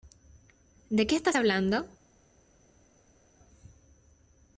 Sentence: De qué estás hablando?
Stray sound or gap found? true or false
false